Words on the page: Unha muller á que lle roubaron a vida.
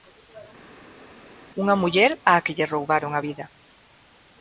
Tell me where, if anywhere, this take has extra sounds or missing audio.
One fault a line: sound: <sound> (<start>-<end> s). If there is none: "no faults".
no faults